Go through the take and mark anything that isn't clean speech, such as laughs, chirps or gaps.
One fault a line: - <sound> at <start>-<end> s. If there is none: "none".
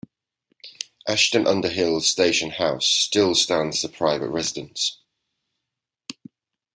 none